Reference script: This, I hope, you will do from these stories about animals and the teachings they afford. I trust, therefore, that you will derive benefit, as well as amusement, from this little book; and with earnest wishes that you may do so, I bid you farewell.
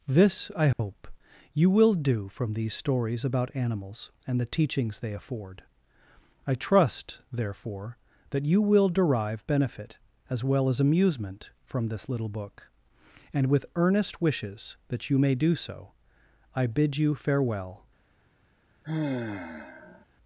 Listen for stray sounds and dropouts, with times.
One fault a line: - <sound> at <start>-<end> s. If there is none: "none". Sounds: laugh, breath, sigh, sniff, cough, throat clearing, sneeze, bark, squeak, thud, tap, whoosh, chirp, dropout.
- dropout at 0.7-0.8 s
- sigh at 18.8-20.1 s